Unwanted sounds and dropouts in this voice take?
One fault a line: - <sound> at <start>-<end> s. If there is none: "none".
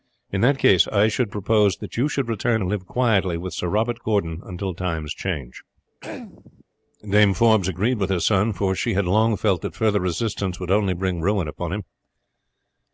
- throat clearing at 6.0-6.6 s